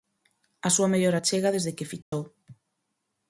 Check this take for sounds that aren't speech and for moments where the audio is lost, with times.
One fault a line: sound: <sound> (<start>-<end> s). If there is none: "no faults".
sound: dropout (2.0-2.1 s)